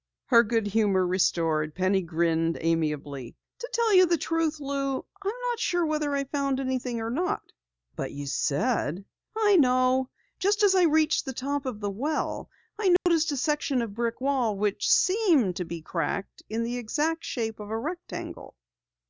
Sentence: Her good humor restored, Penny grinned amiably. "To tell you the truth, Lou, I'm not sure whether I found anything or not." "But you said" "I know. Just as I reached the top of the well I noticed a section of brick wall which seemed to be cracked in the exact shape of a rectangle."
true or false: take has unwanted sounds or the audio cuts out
true